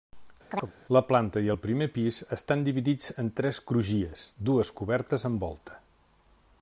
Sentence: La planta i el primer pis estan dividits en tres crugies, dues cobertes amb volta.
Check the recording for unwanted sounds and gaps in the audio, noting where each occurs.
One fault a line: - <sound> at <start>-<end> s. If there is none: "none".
- chirp at 0.5-0.7 s